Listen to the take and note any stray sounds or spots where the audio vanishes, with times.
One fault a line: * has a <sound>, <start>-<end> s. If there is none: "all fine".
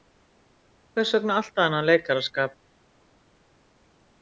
all fine